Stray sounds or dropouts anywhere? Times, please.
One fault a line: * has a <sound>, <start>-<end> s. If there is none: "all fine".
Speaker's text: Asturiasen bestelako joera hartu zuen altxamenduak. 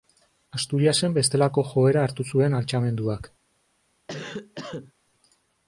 * has a cough, 4.1-4.9 s